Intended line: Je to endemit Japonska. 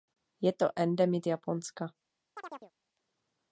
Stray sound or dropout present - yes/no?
yes